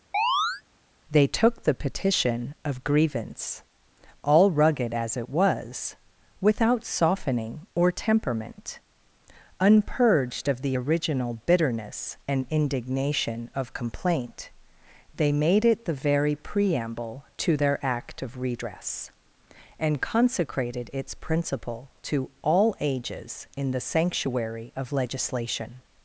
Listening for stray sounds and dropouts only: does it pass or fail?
fail